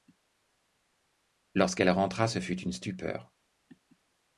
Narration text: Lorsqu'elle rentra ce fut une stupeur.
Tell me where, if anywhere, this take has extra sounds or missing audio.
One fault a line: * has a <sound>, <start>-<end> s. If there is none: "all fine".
all fine